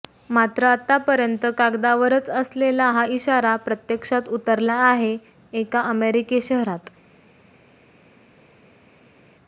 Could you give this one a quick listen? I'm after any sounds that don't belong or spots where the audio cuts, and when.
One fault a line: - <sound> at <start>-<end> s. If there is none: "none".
none